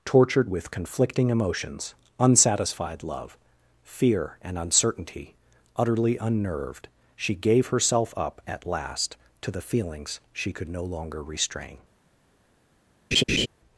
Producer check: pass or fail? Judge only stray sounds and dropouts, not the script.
fail